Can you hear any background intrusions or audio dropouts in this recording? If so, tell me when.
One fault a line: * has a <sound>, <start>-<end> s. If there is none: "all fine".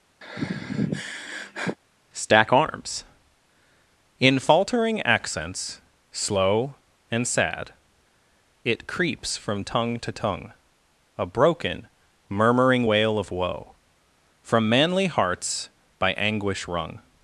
* has a sigh, 0.2-1.8 s